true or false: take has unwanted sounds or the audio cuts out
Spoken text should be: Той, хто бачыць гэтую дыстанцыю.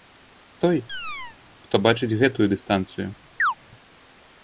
true